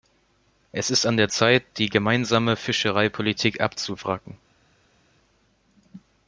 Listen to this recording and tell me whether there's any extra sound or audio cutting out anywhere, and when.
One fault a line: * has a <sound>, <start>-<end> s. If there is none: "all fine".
all fine